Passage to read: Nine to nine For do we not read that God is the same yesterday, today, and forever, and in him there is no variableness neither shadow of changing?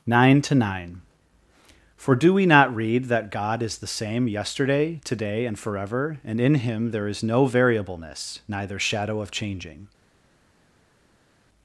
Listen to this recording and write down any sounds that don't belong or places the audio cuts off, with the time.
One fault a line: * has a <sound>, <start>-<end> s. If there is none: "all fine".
all fine